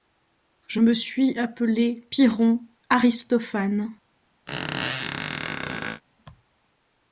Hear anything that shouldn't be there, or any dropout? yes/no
yes